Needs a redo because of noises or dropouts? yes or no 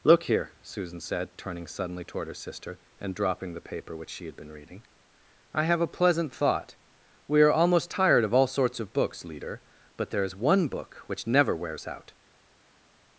no